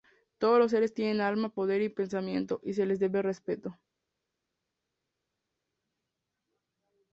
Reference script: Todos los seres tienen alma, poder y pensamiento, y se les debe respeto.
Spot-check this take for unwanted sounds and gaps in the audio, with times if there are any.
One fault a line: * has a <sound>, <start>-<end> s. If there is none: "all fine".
all fine